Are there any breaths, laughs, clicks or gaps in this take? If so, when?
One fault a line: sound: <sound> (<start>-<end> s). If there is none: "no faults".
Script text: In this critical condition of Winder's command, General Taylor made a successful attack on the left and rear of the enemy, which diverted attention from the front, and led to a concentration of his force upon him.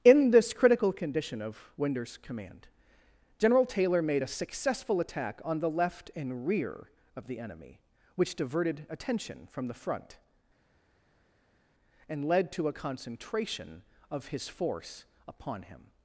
no faults